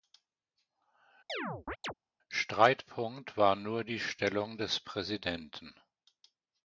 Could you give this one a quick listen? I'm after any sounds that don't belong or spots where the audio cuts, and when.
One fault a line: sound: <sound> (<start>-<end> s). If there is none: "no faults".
sound: chirp (1.3-1.9 s)